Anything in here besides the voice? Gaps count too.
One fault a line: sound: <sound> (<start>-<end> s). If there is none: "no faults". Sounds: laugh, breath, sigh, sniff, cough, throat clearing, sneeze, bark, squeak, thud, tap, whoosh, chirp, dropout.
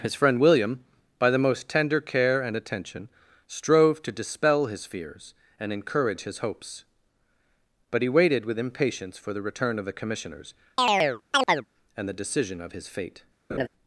sound: chirp (10.8-11.7 s)
sound: laugh (13.5-13.7 s)